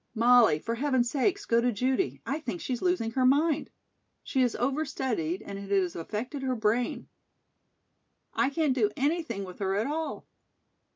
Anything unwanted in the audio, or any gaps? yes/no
no